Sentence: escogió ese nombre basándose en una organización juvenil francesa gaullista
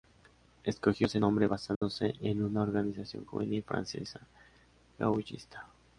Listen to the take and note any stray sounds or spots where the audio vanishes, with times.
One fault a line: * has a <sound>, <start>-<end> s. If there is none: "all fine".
* has a dropout, 1.7-1.8 s